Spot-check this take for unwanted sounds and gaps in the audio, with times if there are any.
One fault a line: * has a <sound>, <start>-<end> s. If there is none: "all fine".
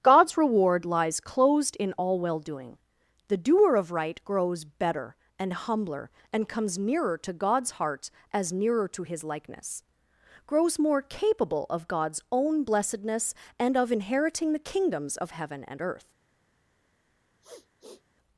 * has a sniff, 17.4-18.0 s